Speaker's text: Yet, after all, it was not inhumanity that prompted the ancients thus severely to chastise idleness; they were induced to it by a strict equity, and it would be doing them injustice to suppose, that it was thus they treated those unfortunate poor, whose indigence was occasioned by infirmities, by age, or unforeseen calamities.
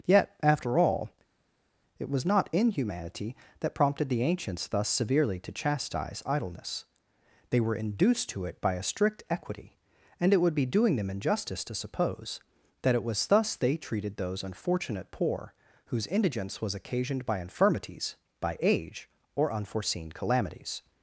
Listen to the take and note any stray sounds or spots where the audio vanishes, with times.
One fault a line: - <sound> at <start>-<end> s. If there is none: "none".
none